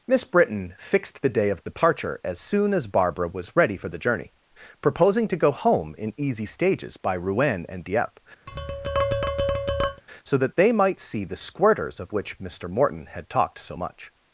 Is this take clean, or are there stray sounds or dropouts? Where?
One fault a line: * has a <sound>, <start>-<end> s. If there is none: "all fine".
* has a tap, 8.5-10.0 s